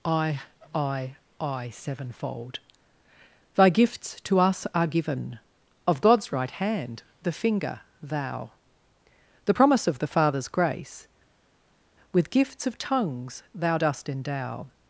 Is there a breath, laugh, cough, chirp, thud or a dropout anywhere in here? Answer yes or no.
no